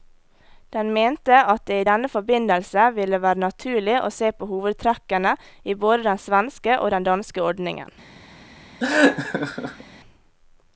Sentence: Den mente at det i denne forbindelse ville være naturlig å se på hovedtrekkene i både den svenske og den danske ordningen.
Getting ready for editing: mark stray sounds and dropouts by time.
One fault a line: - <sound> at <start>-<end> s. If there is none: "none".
- laugh at 8.8-9.8 s